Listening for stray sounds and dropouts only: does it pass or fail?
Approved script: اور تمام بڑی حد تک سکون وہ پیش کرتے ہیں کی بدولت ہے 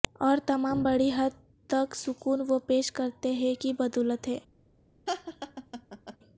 fail